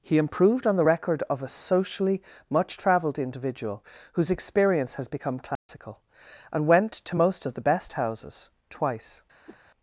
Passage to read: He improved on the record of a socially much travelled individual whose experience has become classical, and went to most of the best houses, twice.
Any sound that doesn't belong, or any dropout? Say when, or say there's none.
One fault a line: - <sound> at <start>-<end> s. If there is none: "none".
- dropout at 5.6-5.7 s
- whoosh at 9.5-9.6 s